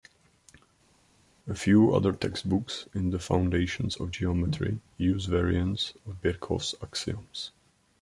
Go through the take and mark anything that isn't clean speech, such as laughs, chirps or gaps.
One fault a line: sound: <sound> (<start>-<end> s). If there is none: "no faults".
no faults